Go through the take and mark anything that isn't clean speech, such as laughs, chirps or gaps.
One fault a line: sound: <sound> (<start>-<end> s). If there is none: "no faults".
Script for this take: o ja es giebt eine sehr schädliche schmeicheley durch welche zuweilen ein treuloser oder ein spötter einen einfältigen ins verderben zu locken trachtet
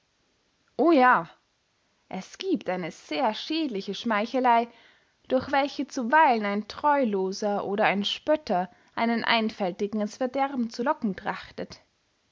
no faults